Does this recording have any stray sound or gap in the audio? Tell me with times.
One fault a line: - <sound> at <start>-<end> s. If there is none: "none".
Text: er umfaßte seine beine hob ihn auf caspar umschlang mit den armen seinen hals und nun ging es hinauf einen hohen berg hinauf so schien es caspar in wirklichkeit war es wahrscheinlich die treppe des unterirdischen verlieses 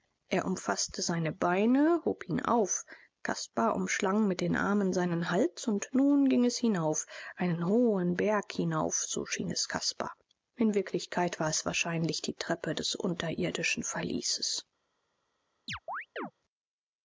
- chirp at 15.7-16.3 s